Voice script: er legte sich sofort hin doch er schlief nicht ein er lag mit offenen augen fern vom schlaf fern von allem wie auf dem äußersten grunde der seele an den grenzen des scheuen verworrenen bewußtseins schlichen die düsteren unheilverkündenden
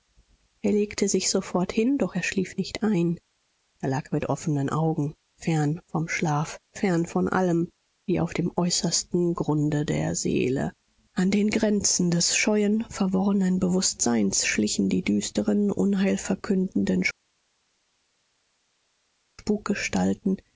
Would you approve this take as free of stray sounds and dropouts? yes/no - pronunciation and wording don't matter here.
yes